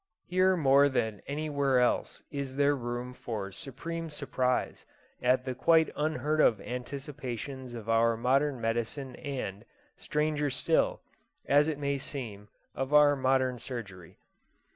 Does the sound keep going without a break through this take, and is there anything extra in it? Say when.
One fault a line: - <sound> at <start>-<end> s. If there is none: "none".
none